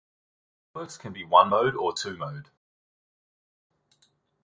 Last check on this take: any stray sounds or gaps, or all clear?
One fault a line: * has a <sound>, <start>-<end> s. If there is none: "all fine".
all fine